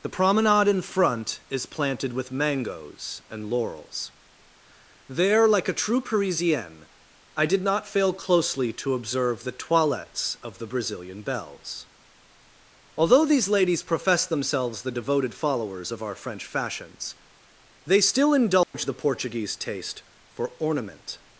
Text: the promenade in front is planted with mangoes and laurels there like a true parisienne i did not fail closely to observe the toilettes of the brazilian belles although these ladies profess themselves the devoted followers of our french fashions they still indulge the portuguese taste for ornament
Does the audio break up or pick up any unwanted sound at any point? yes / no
yes